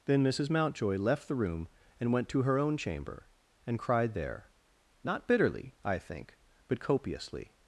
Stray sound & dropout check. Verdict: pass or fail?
pass